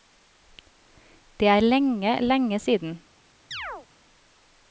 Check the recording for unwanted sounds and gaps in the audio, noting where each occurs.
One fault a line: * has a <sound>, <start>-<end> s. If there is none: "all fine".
* has a chirp, 3.5-3.9 s